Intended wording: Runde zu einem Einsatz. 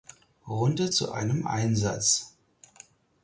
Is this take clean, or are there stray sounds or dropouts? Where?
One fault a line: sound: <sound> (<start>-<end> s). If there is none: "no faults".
no faults